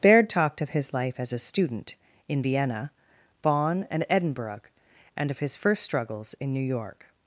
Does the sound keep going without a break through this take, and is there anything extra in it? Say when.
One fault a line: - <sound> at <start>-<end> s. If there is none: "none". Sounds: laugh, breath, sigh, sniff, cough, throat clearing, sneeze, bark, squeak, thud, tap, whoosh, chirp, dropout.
none